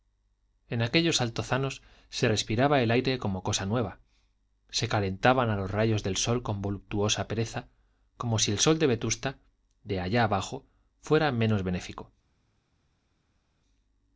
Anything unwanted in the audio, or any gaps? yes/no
no